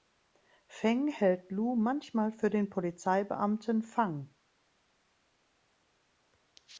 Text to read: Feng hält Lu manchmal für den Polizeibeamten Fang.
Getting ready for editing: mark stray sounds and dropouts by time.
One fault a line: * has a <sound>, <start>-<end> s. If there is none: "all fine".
all fine